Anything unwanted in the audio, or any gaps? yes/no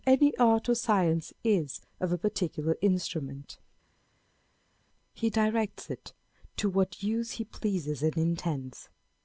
no